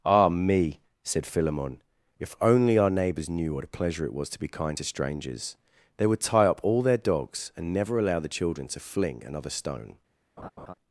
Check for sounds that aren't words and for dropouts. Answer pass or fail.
fail